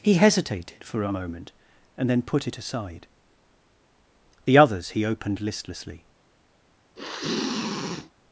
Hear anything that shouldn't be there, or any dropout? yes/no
yes